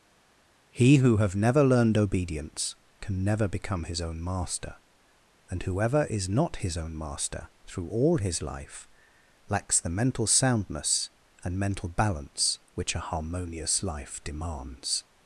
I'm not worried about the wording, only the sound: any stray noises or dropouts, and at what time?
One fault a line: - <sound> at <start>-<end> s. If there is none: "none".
none